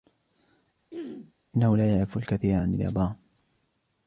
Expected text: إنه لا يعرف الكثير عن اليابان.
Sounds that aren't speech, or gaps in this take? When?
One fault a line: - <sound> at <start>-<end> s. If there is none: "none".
- throat clearing at 0.9-1.3 s